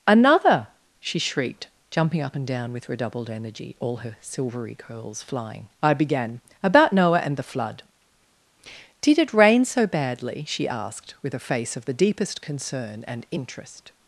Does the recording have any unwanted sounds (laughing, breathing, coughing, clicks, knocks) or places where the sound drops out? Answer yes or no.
no